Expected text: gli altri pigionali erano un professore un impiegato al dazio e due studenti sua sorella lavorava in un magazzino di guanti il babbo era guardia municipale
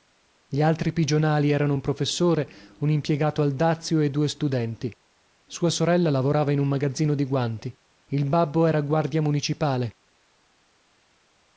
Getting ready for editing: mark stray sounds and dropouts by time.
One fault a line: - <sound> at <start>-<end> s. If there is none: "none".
none